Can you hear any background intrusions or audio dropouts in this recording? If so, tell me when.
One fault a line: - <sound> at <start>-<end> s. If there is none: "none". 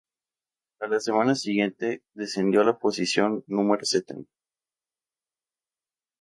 none